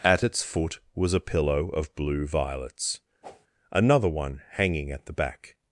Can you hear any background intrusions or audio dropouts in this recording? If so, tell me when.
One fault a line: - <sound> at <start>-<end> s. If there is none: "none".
- whoosh at 3.2-3.5 s